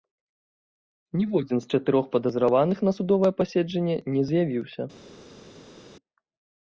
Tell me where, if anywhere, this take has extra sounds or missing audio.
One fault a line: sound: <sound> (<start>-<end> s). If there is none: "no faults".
no faults